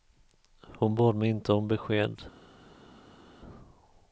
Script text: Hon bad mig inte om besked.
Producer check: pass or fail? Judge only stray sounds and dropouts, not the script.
pass